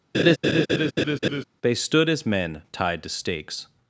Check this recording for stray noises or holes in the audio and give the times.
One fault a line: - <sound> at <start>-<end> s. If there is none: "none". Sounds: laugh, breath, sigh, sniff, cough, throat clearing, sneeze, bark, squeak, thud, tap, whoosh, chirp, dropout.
- laugh at 0.1-1.4 s